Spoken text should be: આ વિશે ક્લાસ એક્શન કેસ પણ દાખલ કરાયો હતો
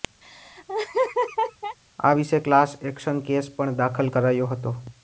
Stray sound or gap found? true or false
true